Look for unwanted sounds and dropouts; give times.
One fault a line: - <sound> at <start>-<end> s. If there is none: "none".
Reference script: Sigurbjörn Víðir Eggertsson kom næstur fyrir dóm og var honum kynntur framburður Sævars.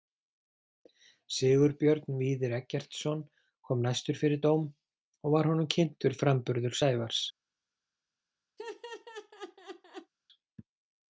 - laugh at 8.6-10.1 s